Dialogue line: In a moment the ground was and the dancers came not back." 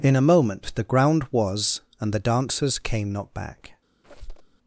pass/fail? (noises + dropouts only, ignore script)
fail